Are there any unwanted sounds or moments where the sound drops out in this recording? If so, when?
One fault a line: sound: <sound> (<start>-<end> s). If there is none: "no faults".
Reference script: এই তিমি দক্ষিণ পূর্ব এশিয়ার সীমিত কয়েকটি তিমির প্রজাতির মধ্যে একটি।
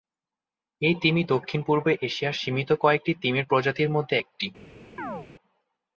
sound: chirp (5.0-5.3 s)